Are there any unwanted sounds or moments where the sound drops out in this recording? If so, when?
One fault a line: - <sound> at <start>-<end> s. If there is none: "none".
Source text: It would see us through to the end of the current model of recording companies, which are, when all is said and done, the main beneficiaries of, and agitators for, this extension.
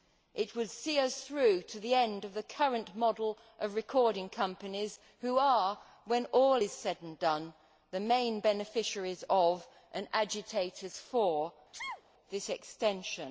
- sneeze at 11.7-12.0 s